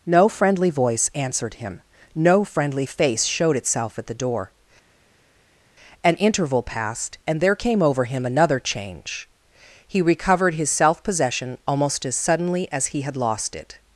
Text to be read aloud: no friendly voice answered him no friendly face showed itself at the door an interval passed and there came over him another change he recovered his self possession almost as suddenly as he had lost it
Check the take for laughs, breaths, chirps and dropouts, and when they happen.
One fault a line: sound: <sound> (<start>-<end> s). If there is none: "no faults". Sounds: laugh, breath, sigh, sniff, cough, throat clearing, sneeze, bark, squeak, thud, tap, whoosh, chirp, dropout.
no faults